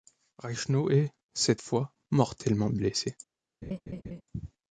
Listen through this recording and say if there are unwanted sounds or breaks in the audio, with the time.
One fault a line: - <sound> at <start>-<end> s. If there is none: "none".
- laugh at 3.6-4.2 s